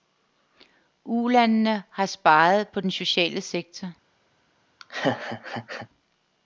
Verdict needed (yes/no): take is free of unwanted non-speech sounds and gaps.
no